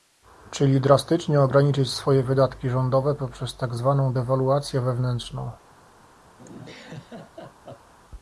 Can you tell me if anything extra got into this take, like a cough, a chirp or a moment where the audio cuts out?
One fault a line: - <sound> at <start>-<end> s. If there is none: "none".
- laugh at 6.4-7.9 s